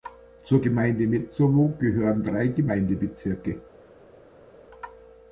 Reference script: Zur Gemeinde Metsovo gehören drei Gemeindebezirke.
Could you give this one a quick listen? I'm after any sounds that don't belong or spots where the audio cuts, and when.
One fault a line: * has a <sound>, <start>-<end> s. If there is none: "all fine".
all fine